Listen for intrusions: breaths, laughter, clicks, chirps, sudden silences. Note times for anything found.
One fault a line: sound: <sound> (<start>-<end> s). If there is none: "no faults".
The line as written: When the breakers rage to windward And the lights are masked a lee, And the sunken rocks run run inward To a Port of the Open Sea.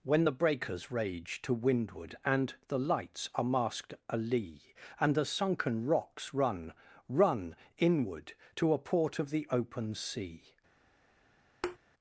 sound: thud (11.6-11.8 s)